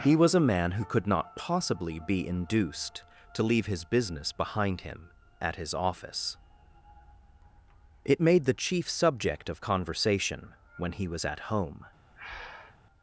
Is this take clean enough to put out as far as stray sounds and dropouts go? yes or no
no